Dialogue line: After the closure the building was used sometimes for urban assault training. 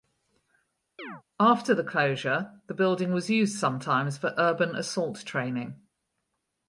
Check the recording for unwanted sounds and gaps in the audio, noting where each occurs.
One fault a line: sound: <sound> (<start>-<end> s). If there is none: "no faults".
sound: chirp (1.0-1.2 s)